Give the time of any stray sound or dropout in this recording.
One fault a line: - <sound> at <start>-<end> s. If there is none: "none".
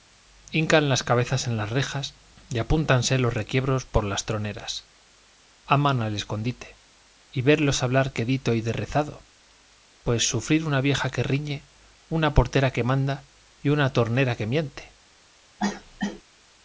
- cough at 15.6-16.2 s